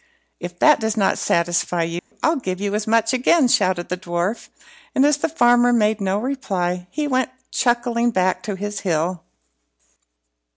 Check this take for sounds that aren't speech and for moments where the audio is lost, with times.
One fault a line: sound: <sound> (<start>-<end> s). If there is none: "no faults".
sound: dropout (2.0-2.1 s)